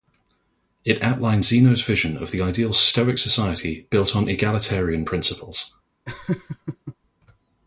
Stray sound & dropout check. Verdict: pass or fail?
fail